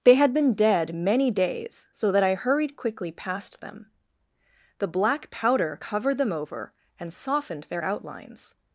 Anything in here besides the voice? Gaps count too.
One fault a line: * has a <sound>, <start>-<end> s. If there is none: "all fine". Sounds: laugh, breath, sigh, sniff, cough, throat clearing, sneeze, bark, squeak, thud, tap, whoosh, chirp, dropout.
all fine